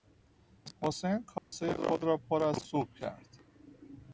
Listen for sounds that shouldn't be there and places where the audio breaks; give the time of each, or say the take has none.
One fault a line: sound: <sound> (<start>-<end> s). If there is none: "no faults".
sound: dropout (1.4-1.5 s)